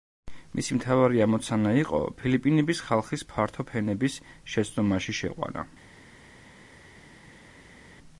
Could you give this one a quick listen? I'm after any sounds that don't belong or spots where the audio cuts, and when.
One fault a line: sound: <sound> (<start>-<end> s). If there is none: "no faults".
no faults